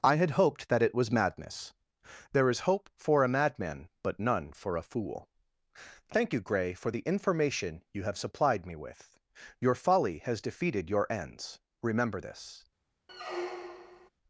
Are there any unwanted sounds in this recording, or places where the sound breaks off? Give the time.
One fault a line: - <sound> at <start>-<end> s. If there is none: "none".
- squeak at 13.1-14.1 s